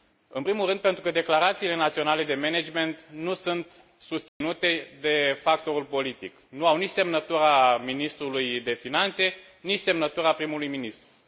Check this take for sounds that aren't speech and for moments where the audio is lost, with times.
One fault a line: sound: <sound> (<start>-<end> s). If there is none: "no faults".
sound: dropout (4.3-4.4 s)